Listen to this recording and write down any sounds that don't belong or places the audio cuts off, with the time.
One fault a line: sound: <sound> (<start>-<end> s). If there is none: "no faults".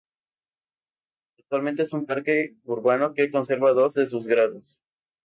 no faults